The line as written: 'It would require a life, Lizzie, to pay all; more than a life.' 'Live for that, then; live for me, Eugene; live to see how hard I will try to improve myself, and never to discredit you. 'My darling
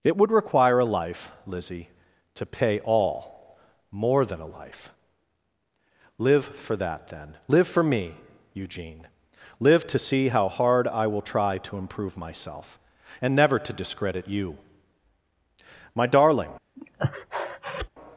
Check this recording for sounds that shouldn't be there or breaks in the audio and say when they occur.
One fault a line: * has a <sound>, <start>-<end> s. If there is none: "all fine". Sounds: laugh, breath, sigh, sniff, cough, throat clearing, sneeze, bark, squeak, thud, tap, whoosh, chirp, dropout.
* has a breath, 16.8-17.9 s